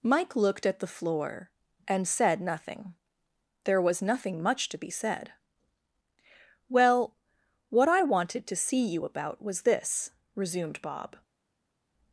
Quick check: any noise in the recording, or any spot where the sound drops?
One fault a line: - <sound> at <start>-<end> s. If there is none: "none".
none